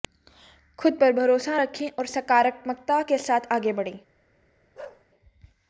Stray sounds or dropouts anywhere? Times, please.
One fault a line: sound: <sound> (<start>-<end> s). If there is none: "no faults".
sound: bark (4.7-5.0 s)